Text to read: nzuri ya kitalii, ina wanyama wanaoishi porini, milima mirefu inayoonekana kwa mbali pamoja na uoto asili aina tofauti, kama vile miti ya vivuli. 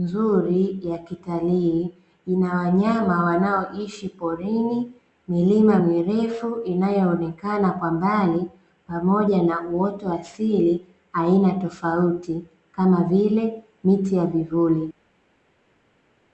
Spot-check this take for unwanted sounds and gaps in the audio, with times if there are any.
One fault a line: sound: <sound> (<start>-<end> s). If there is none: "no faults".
no faults